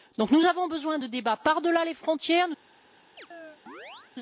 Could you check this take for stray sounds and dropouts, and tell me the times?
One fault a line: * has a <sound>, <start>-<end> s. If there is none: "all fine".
* has a chirp, 3.2-4.1 s